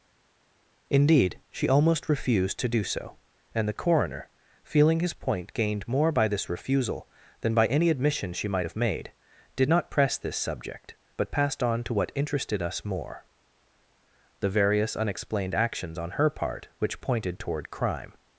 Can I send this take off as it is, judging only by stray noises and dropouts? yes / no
yes